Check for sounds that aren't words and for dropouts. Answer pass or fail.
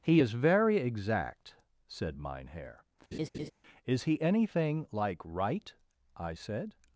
fail